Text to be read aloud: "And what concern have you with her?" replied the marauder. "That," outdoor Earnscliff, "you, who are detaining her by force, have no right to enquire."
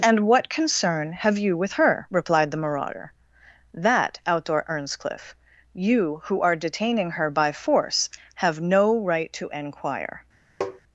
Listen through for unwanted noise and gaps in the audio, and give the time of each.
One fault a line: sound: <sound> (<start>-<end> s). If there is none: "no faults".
sound: tap (10.6-10.8 s)